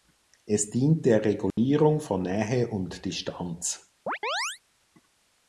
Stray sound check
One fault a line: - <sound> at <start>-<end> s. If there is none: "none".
- dropout at 1.5-1.6 s
- chirp at 4.1-4.6 s